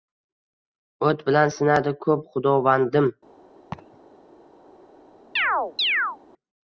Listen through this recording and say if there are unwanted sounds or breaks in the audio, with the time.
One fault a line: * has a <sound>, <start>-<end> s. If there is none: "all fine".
* has a laugh, 3.7-4.0 s
* has a chirp, 5.4-6.2 s